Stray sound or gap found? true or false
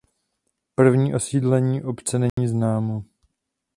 true